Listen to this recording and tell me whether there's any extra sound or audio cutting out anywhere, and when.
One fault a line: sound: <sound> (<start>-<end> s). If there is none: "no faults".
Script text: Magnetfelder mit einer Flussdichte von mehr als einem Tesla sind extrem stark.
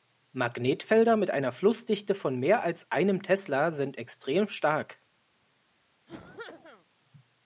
sound: cough (6.1-6.9 s)